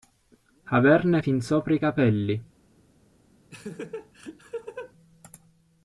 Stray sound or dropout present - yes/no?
yes